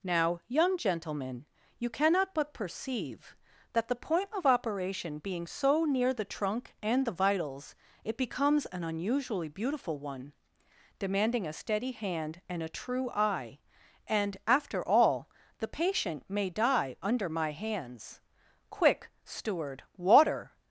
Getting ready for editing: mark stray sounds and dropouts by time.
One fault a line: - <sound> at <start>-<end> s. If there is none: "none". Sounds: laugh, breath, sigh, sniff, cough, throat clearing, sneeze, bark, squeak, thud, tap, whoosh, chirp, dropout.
none